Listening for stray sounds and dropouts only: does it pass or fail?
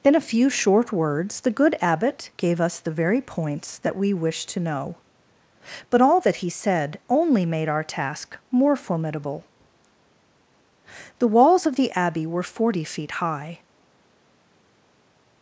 pass